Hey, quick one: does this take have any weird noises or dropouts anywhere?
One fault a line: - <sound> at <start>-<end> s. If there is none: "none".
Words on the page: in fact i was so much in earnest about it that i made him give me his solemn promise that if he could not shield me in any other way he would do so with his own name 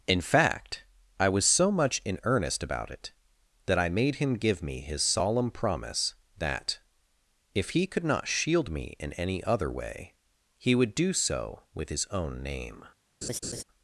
- laugh at 13.2-13.6 s